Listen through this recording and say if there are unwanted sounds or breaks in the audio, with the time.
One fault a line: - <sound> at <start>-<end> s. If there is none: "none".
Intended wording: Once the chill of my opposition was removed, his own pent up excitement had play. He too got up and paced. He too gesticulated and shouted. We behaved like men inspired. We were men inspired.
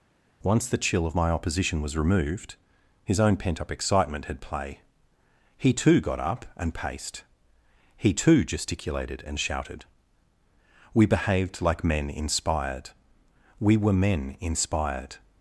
none